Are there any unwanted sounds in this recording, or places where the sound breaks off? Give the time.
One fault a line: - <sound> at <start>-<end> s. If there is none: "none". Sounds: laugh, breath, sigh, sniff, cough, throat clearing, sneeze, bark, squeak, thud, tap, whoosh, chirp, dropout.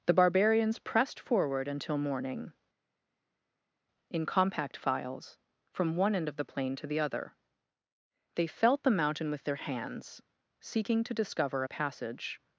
none